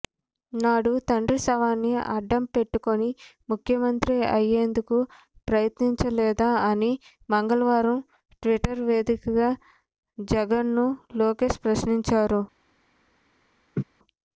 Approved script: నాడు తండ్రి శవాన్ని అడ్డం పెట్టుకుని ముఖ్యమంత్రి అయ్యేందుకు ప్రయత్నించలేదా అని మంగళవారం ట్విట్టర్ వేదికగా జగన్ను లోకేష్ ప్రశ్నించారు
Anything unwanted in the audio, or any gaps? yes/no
yes